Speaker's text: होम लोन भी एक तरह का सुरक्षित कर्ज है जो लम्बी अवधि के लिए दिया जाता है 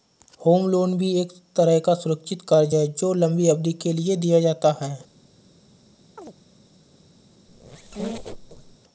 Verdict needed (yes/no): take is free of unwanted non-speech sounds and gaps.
no